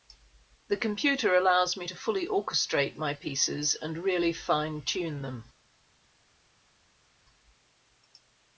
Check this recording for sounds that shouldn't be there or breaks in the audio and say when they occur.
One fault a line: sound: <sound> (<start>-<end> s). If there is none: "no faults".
no faults